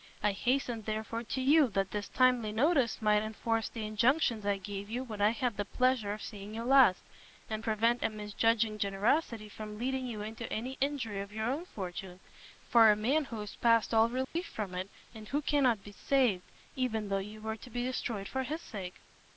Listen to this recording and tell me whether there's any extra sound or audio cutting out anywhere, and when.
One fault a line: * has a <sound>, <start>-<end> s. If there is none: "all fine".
* has a dropout, 14.2-14.4 s